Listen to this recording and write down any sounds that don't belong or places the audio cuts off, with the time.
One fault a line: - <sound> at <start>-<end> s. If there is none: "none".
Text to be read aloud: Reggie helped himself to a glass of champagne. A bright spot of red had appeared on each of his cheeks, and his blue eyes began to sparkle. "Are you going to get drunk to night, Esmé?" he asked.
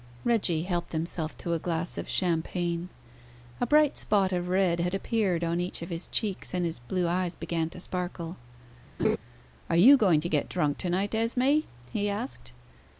- laugh at 9.0-9.2 s